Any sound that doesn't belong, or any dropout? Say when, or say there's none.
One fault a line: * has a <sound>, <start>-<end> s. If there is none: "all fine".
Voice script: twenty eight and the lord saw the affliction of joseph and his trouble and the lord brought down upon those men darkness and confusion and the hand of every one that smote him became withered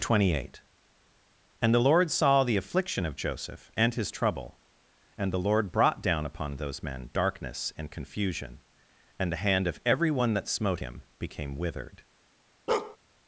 * has a bark, 12.7-13.0 s